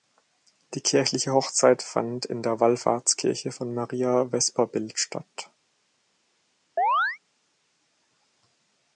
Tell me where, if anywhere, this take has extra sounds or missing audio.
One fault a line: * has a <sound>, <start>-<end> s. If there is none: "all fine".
* has a chirp, 6.8-7.2 s